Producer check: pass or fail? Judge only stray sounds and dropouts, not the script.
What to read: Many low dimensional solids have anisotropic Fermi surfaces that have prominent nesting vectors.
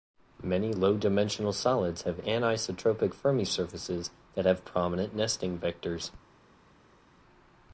pass